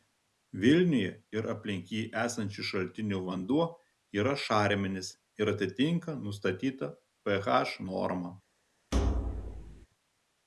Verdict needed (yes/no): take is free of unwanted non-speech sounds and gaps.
no